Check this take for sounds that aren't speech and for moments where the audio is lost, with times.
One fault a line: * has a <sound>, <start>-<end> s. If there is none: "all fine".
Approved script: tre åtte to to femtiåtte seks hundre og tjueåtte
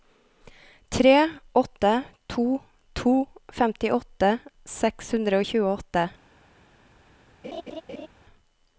* has a laugh, 7.4-8.1 s